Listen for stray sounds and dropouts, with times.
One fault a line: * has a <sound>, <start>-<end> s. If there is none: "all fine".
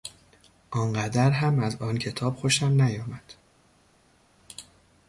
all fine